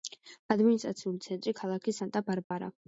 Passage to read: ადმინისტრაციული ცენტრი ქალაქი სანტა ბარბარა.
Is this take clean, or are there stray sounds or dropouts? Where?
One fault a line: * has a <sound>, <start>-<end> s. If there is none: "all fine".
* has a dropout, 2.4-2.5 s